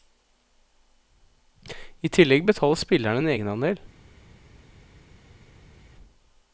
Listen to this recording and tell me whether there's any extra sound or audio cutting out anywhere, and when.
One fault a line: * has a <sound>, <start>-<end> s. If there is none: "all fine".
all fine